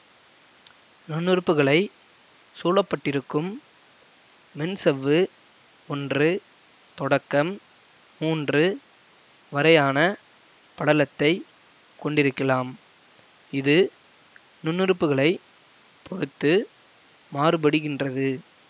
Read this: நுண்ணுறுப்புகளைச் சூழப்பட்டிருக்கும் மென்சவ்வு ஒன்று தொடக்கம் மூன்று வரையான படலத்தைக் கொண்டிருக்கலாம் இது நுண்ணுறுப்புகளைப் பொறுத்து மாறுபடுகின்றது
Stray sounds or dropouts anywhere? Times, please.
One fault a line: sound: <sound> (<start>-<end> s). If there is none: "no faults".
no faults